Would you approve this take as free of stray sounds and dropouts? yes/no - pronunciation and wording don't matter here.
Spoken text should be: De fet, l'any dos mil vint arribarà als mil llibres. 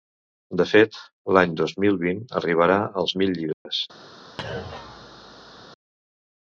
no